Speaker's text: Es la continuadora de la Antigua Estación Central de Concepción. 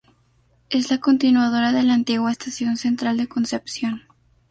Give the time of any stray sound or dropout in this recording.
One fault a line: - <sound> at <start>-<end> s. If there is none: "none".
none